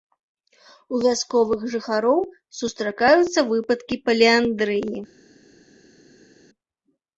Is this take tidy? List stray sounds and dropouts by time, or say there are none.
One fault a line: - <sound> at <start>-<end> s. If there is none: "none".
none